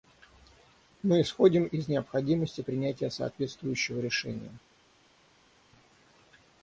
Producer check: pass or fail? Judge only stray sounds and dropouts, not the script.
pass